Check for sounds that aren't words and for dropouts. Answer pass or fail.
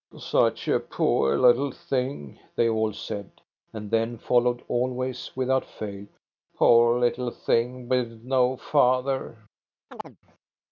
fail